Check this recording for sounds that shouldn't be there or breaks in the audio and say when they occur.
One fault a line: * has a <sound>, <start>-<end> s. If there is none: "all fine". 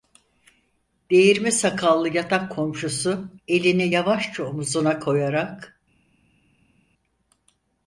all fine